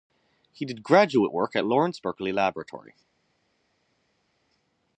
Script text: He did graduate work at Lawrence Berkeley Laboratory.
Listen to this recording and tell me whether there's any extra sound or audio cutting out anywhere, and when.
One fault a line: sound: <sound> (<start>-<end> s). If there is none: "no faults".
no faults